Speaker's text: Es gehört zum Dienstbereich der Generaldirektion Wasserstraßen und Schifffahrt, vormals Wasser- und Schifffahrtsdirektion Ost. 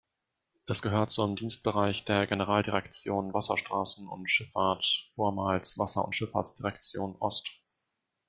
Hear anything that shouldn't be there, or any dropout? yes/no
no